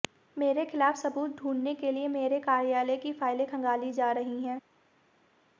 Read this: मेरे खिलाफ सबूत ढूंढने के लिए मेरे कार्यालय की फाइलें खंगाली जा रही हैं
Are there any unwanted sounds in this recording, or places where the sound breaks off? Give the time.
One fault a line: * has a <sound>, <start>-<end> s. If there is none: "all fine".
all fine